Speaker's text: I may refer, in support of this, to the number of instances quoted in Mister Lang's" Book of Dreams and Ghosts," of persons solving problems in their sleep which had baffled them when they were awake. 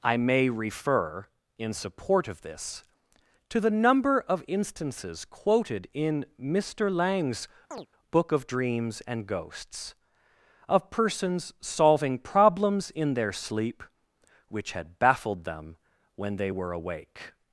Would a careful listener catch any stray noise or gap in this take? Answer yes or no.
yes